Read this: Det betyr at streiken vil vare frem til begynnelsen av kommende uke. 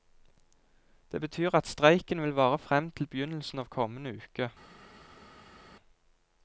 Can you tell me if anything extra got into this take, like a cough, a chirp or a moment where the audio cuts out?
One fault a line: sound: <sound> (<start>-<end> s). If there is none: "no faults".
no faults